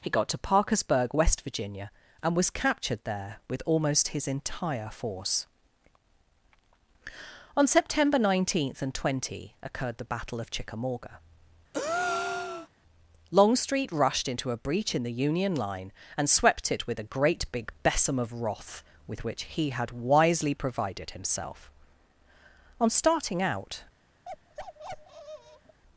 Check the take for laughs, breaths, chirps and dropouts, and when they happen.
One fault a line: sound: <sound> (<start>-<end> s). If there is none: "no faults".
sound: breath (11.7-12.7 s)
sound: bark (24.3-25.8 s)